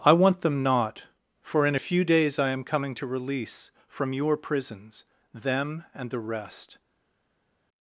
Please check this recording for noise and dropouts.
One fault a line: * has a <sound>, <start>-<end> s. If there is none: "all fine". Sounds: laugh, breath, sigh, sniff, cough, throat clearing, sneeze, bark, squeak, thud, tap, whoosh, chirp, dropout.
all fine